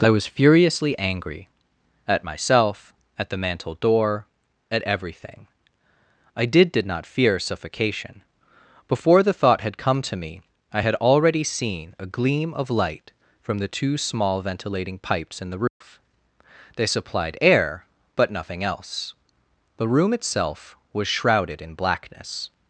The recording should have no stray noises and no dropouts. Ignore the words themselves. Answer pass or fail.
fail